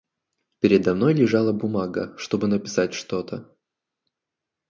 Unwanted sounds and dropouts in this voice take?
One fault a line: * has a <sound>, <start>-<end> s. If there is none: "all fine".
all fine